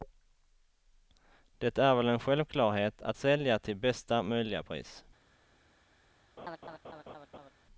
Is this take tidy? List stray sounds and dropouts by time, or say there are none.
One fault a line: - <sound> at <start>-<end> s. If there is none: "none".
- laugh at 6.4-7.5 s